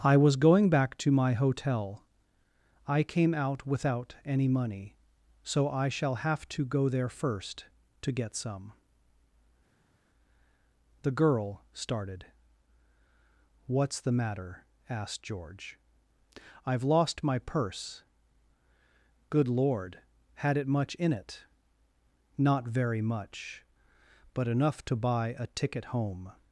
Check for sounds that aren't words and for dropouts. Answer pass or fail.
pass